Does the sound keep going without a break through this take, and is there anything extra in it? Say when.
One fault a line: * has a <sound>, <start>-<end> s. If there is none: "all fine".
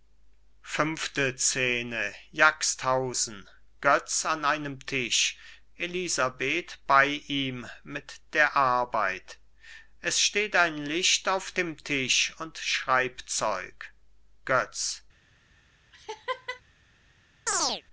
* has a laugh, 15.9-16.6 s
* has a chirp, 17.5-17.8 s